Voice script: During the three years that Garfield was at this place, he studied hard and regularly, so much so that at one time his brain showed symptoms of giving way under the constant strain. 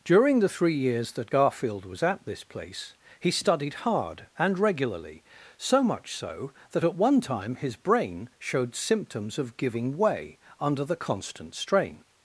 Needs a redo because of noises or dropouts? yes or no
no